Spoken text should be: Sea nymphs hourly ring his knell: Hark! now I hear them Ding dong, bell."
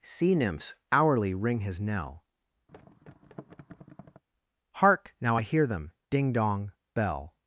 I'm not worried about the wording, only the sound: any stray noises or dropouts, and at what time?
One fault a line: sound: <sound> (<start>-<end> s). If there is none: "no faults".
sound: thud (2.7-4.2 s)